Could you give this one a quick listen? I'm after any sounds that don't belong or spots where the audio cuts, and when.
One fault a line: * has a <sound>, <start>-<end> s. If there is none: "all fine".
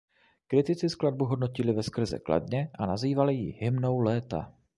all fine